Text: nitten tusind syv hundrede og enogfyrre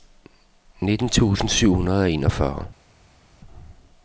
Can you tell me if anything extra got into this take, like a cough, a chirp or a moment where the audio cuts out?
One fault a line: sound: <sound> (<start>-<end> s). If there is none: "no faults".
no faults